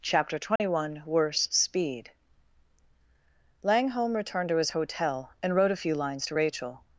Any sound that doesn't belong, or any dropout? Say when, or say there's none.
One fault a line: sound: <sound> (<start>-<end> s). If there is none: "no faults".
sound: dropout (0.6-0.6 s)